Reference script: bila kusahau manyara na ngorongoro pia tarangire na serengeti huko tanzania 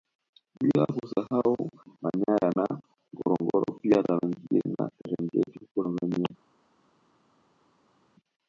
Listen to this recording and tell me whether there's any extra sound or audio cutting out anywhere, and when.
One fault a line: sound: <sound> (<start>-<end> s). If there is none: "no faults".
no faults